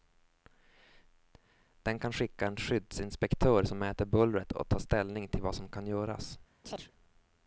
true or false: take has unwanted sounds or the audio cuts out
true